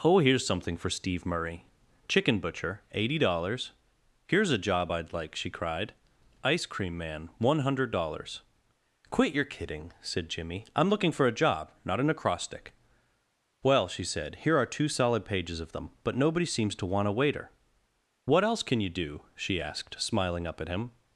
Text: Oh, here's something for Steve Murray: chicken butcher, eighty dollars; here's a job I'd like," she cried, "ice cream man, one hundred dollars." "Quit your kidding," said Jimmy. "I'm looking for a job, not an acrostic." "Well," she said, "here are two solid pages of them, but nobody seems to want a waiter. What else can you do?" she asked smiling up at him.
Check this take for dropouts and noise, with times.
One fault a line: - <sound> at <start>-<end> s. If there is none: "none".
none